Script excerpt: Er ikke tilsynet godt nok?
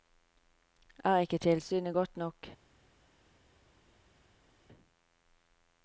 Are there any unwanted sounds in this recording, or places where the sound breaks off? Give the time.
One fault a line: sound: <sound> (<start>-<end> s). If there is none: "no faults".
no faults